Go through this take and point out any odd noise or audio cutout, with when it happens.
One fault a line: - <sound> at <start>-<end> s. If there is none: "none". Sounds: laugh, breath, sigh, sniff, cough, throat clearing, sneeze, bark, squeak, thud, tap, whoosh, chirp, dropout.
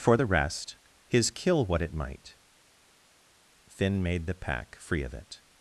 none